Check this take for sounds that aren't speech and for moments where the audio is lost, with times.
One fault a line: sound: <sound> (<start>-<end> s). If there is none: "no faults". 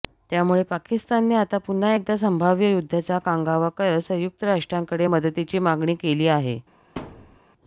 sound: thud (7.0-7.4 s)